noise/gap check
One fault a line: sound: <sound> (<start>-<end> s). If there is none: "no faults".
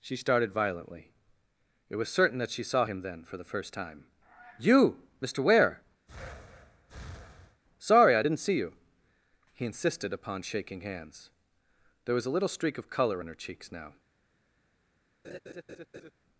sound: breath (6.1-7.6 s)
sound: laugh (15.2-16.1 s)